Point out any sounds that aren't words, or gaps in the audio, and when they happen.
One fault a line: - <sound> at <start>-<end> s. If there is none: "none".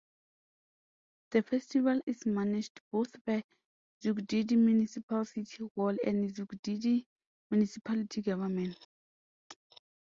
none